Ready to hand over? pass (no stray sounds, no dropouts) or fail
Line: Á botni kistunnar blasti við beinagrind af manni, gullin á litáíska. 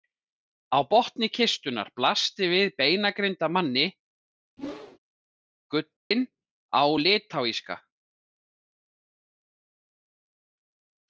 fail